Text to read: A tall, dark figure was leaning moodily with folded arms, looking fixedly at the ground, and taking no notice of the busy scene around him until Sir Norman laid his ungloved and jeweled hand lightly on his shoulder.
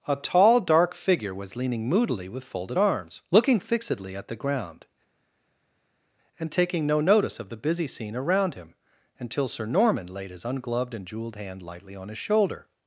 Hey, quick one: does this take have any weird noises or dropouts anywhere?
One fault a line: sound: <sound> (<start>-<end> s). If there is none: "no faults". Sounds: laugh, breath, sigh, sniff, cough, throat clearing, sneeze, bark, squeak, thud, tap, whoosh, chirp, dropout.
no faults